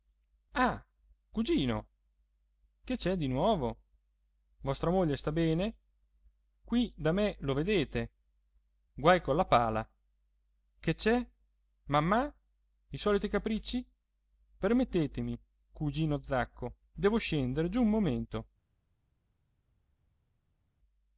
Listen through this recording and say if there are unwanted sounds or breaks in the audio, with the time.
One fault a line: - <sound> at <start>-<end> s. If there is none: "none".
none